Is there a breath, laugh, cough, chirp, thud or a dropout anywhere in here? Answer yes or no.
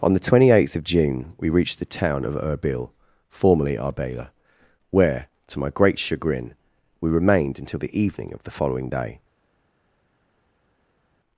no